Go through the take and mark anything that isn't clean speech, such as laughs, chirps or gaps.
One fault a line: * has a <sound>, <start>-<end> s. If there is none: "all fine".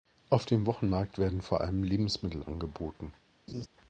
* has a laugh, 3.5-3.7 s